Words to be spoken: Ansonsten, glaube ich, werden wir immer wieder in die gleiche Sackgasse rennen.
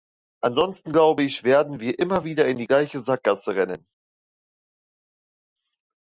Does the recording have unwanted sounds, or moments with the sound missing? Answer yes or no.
no